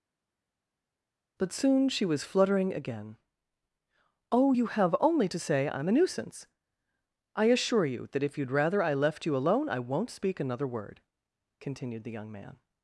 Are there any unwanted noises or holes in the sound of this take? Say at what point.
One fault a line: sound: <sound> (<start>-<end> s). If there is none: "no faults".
no faults